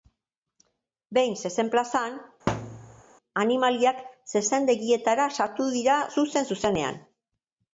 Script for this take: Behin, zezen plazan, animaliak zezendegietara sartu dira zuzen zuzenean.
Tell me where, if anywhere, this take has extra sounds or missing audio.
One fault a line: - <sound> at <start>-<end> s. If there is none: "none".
- thud at 2.5-3.0 s